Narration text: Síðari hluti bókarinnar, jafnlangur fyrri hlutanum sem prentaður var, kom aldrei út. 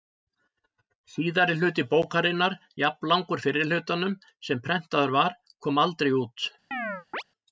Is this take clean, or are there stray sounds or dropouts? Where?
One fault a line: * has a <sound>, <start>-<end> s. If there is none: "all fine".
* has a chirp, 6.7-7.2 s